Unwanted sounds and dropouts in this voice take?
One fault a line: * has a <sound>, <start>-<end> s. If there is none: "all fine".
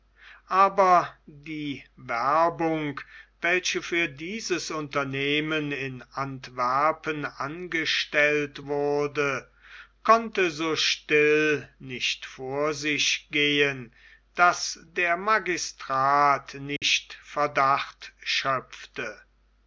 * has a dropout, 16.8-16.8 s